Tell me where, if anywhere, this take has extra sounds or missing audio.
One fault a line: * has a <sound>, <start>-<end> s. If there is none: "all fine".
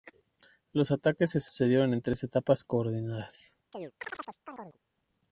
* has a chirp, 3.7-4.8 s